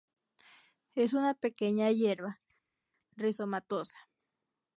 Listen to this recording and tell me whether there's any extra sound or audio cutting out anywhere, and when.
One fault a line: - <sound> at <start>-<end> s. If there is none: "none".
none